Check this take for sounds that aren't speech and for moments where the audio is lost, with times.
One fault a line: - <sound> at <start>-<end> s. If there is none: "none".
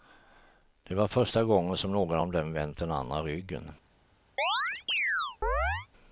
- chirp at 4.4-5.9 s